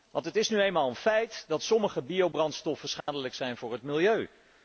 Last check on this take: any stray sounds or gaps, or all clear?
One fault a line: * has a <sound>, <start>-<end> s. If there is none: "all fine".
* has a dropout, 3.0-3.1 s